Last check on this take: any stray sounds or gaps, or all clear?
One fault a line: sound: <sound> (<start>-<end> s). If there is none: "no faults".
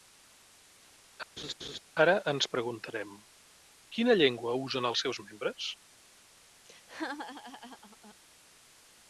sound: laugh (1.4-1.8 s)
sound: laugh (6.7-8.2 s)